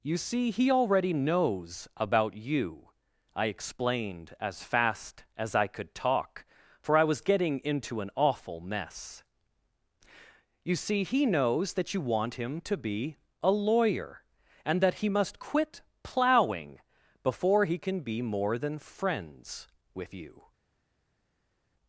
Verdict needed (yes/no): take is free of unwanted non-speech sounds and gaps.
yes